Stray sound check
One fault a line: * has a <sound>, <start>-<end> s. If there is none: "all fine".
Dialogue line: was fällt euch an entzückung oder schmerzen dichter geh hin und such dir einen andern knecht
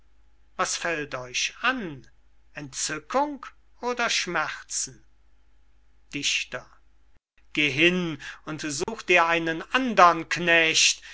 * has a dropout, 8.8-8.9 s